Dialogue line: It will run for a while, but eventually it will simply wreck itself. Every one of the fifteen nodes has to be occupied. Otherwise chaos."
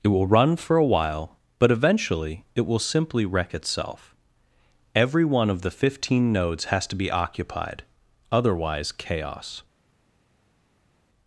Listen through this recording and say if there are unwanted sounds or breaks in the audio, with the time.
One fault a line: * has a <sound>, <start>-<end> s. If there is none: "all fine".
all fine